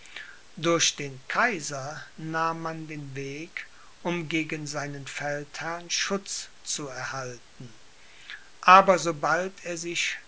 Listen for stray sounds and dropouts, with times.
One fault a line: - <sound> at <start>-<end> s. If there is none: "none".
none